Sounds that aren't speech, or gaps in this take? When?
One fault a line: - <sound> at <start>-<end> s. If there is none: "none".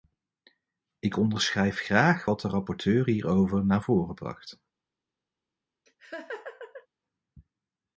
- laugh at 5.9-6.9 s